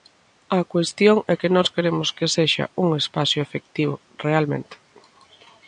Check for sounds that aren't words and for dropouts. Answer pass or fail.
pass